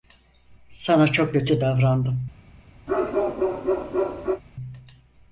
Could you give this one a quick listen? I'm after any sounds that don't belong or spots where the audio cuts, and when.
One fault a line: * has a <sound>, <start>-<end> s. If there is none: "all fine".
* has a bark, 2.9-4.4 s